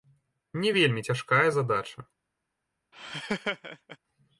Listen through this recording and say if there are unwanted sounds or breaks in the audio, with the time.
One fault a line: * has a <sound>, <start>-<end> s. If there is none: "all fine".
* has a laugh, 2.9-4.0 s